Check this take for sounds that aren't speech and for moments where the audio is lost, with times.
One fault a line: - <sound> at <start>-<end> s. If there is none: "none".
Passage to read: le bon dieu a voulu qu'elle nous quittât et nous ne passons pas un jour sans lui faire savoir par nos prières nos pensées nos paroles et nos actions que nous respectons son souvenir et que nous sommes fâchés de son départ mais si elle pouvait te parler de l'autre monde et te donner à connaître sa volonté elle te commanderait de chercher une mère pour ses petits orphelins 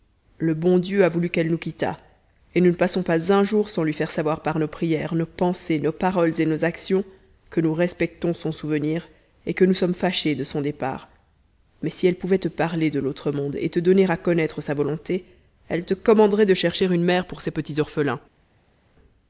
none